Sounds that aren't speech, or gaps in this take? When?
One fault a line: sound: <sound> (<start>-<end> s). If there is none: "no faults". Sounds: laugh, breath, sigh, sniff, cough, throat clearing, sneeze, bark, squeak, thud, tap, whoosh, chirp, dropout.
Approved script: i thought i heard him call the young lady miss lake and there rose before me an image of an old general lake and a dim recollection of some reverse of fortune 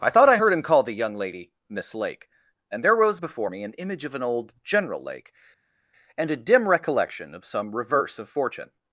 no faults